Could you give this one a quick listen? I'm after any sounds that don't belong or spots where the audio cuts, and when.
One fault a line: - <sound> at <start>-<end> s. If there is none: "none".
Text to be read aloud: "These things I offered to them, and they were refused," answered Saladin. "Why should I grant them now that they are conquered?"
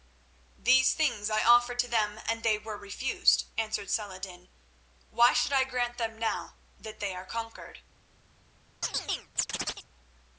- chirp at 8.8-9.9 s